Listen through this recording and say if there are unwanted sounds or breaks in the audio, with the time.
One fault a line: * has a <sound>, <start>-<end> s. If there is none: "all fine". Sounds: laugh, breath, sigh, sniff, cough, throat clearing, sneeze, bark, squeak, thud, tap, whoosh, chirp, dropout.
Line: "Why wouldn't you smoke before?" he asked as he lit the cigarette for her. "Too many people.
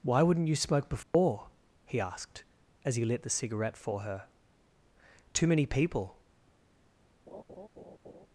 * has a dropout, 1.0-1.1 s
* has a laugh, 7.3-8.3 s